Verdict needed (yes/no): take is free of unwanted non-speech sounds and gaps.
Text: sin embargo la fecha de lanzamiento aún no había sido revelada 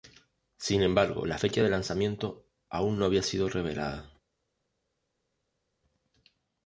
yes